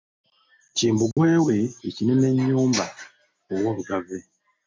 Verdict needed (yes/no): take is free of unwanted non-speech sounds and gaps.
no